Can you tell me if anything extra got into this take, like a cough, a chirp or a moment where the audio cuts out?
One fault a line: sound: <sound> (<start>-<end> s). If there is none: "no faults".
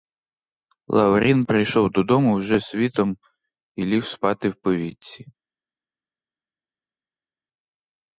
no faults